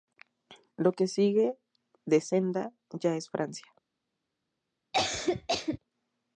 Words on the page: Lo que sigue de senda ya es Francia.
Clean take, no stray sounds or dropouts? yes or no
no